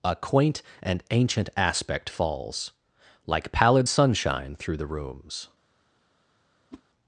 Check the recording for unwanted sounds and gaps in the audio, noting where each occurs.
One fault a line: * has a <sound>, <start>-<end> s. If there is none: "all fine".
* has a whoosh, 6.7-6.8 s